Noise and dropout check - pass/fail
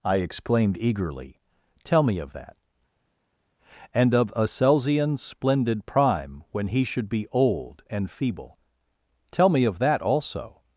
pass